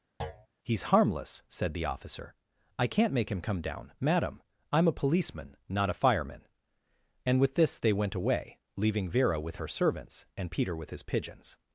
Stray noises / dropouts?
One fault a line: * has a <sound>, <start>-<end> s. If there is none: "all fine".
* has a thud, 0.2-0.5 s